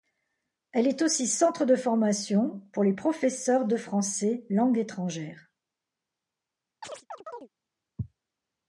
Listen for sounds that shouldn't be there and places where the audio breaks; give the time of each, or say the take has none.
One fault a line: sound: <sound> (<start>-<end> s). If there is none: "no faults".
sound: chirp (6.8-7.5 s)